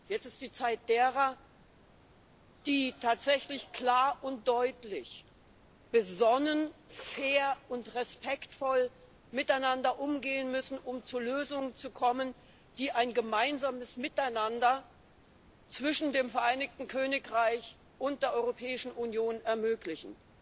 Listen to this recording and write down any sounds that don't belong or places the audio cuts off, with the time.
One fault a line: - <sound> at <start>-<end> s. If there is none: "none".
none